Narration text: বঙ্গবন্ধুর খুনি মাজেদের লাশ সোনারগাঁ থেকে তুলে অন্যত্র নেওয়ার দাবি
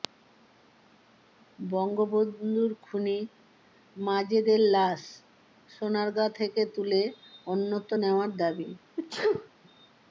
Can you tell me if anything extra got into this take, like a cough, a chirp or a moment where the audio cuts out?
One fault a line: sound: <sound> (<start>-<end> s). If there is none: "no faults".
sound: sneeze (9.0-9.5 s)